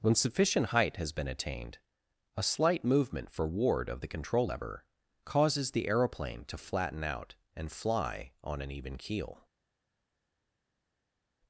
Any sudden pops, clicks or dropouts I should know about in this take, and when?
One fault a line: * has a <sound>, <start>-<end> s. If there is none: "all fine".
all fine